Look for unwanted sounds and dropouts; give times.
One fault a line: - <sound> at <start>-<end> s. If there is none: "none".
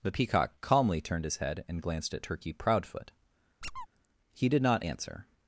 - squeak at 3.6-3.9 s